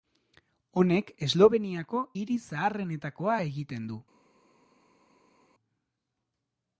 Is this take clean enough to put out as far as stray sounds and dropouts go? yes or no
yes